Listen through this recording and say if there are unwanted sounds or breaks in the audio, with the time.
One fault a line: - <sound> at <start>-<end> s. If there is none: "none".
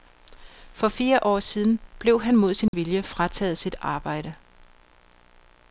- dropout at 2.7-2.7 s